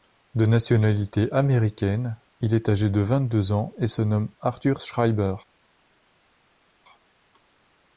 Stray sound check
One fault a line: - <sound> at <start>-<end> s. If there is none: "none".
none